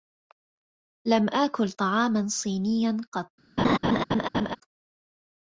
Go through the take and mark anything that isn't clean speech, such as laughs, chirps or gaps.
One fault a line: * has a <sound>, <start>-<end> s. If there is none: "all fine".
* has a laugh, 3.6-4.6 s